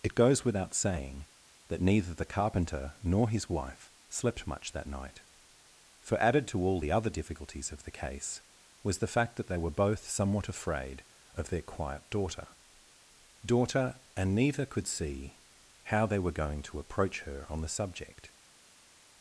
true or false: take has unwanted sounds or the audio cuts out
false